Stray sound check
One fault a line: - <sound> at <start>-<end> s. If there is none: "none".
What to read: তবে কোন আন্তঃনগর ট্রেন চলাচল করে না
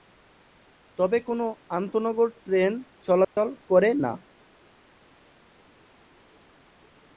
- dropout at 3.2-3.4 s